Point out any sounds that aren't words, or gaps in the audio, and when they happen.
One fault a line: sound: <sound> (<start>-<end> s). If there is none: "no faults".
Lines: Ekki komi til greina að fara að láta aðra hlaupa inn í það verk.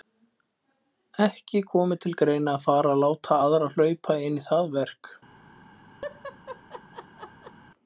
sound: laugh (6.0-7.5 s)